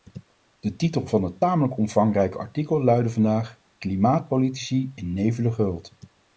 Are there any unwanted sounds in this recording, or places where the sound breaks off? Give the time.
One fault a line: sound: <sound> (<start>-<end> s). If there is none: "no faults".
no faults